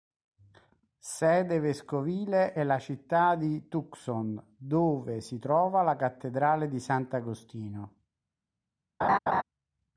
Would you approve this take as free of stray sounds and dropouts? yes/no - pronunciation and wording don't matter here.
no